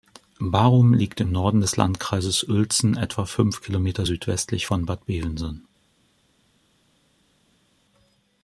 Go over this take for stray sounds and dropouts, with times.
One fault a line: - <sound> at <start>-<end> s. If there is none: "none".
none